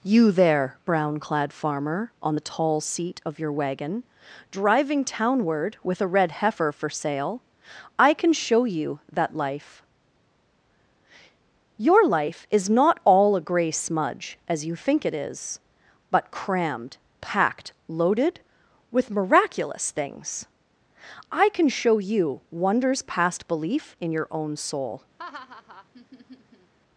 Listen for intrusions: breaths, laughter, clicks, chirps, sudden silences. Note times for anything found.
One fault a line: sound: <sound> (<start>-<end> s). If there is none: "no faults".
sound: laugh (25.2-26.7 s)